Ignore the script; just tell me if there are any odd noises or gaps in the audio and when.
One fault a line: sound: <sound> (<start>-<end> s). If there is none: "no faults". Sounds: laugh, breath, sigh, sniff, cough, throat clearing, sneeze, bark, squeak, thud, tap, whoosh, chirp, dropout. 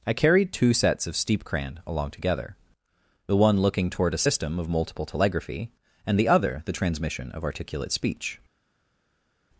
no faults